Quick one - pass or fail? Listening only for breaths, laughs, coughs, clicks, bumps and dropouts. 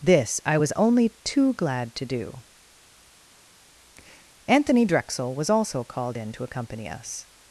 pass